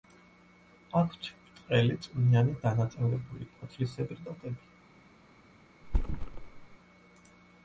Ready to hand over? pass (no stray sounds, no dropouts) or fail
fail